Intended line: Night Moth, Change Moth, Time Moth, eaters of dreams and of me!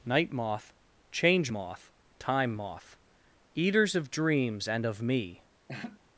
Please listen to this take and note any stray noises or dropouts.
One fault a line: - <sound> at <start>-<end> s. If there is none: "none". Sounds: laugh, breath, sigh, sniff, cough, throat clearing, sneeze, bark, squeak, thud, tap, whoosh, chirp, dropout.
- laugh at 5.7-6.0 s